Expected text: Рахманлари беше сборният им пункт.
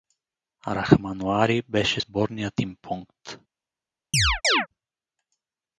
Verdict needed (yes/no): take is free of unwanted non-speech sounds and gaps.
no